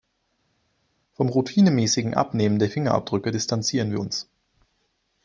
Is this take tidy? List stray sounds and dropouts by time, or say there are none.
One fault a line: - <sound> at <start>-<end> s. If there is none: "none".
none